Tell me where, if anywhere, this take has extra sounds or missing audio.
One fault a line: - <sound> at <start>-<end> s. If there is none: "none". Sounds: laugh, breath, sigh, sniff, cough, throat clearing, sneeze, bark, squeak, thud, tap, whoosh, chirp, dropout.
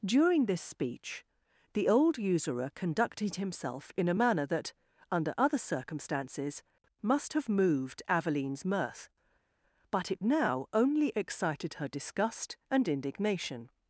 none